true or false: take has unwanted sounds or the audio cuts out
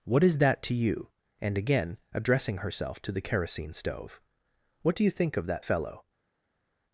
false